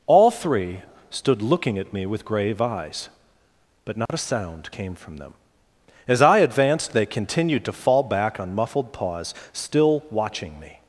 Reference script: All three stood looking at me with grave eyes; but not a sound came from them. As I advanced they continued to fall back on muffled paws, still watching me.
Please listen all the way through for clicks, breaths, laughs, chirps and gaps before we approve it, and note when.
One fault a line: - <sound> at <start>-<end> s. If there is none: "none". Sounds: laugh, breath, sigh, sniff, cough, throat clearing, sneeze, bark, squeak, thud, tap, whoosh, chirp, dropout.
- dropout at 4.1-4.1 s